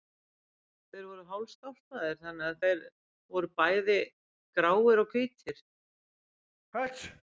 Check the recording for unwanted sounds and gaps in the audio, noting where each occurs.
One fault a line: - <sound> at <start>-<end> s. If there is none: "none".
- sneeze at 6.7-7.2 s